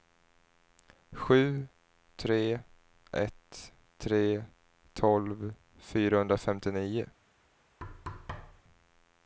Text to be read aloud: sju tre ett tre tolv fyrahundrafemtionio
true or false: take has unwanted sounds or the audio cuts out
true